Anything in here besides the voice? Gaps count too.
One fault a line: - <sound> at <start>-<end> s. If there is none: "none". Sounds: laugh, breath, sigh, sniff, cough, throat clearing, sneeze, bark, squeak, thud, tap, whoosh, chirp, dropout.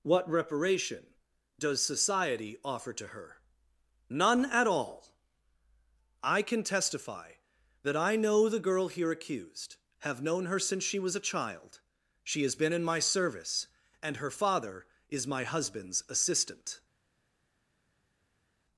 none